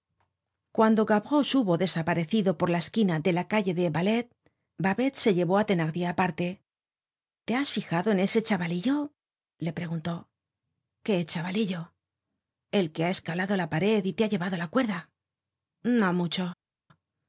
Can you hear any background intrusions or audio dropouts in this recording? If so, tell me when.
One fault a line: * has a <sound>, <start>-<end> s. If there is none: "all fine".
all fine